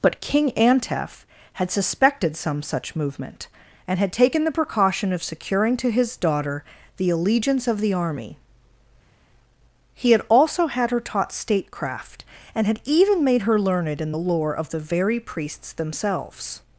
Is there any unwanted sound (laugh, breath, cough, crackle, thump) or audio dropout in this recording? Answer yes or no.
no